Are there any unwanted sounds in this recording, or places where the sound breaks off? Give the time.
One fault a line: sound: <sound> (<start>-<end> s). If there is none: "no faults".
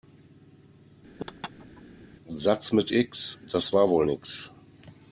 sound: laugh (1.2-1.8 s)